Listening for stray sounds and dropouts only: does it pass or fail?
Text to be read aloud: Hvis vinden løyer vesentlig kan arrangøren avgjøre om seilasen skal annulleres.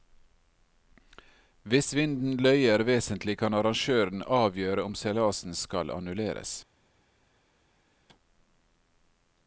pass